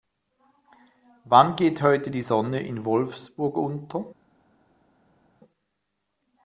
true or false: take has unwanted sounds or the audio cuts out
false